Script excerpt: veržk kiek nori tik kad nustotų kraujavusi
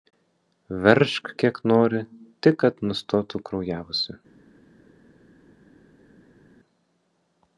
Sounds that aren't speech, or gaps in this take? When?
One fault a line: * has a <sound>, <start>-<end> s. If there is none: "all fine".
all fine